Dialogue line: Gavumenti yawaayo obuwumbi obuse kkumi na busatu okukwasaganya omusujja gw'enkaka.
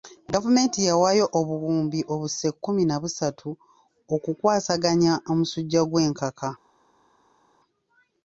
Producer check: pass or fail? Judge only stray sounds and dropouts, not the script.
pass